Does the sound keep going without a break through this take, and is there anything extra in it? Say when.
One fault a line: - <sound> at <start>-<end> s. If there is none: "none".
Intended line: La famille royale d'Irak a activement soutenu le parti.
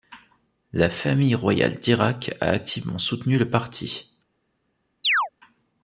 - chirp at 5.0-5.3 s